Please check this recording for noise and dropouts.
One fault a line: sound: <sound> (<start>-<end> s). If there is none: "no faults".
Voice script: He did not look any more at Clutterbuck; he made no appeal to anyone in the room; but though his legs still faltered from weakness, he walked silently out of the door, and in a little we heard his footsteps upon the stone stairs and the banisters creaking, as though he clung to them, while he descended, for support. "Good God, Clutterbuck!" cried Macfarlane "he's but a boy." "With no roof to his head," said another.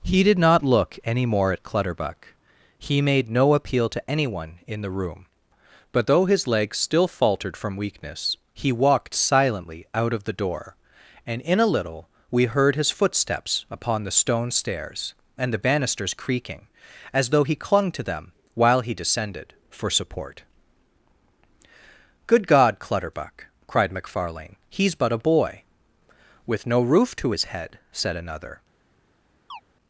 sound: chirp (29.5-29.6 s)